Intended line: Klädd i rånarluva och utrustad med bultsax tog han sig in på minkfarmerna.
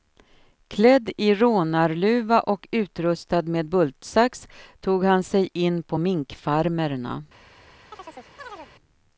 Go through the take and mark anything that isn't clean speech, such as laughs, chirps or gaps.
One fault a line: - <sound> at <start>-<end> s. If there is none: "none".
- chirp at 7.9-8.7 s